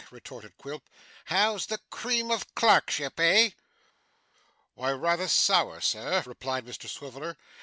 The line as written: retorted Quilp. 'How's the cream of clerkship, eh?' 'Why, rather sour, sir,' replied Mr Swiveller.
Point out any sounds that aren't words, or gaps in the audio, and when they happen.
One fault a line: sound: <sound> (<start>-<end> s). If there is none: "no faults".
no faults